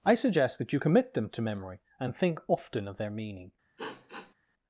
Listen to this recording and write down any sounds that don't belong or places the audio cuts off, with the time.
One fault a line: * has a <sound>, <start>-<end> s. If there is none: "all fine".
* has a sniff, 3.8-4.3 s